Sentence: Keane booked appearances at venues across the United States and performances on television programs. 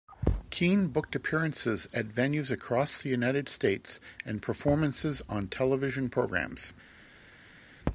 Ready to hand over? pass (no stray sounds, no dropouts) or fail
pass